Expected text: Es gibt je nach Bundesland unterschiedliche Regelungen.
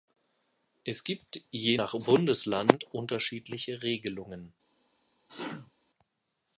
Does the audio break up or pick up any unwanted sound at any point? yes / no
yes